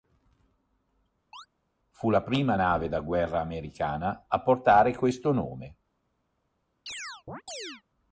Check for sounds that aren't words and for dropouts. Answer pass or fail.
fail